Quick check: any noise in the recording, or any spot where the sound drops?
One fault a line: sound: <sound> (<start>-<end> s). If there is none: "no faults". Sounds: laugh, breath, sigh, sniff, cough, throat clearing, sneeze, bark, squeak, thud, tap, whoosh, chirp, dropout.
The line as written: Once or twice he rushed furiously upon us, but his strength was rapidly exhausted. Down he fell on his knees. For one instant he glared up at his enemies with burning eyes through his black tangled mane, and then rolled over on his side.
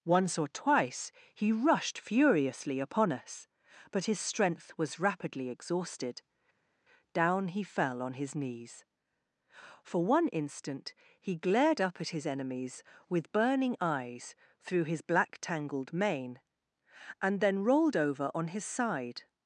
no faults